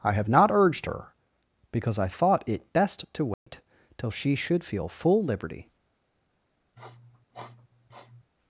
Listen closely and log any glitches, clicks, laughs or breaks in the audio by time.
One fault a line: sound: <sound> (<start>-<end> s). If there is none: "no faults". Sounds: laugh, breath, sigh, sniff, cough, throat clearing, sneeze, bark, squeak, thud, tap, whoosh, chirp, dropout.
sound: dropout (3.3-3.5 s)
sound: sniff (6.8-8.3 s)